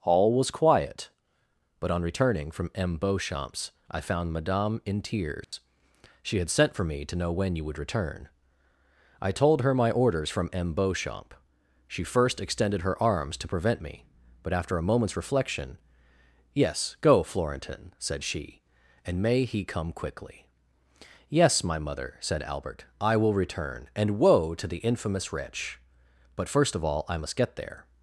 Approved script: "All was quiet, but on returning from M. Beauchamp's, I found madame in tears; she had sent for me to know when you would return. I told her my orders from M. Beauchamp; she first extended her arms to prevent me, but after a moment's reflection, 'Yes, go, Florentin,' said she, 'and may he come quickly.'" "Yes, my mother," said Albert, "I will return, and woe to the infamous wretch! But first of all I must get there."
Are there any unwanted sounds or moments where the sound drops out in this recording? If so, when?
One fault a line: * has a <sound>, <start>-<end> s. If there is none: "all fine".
* has a dropout, 5.4-5.5 s